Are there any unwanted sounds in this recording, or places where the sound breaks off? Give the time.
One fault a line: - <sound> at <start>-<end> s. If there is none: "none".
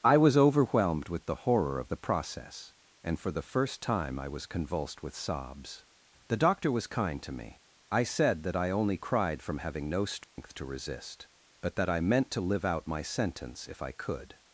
- dropout at 10.2-10.4 s